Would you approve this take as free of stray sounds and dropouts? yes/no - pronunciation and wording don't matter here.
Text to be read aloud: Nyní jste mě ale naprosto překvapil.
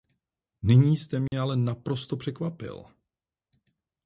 no